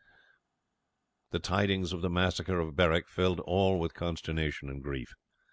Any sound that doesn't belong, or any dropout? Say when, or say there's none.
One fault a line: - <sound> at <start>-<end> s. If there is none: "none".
none